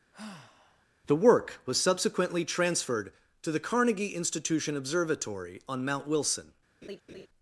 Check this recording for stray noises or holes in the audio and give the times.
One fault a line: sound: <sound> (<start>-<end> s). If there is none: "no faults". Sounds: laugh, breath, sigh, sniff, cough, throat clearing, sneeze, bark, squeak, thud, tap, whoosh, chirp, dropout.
sound: sigh (0.1-0.9 s)
sound: laugh (6.8-7.3 s)